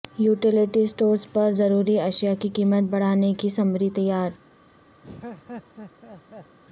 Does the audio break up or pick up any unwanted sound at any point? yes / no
yes